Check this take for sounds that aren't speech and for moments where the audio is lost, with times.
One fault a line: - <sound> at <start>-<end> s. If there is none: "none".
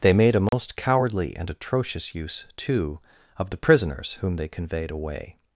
- dropout at 0.5-0.5 s